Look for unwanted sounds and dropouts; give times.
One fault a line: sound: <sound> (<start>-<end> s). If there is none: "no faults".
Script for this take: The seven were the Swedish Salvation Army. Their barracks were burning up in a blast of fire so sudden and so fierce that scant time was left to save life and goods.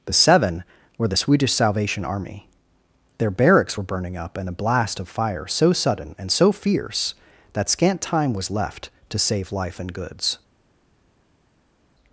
no faults